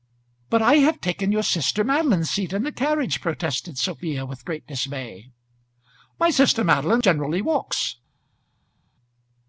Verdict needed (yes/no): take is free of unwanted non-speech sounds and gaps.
yes